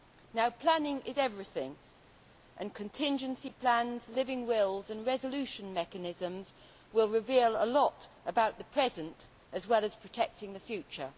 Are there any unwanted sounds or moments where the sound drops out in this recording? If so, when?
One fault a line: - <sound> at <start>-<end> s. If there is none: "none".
none